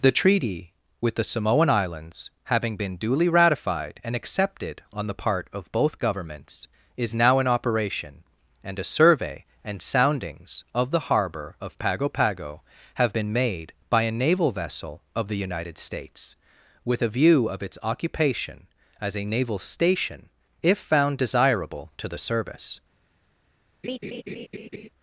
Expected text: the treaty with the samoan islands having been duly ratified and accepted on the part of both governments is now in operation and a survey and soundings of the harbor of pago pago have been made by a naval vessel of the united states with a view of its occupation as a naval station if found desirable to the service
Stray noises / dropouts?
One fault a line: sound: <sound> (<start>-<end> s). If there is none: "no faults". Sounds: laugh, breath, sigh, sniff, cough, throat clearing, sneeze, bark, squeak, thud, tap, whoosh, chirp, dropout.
sound: laugh (23.8-24.9 s)